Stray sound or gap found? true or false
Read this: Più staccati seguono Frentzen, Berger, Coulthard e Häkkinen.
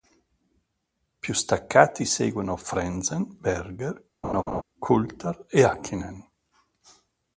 true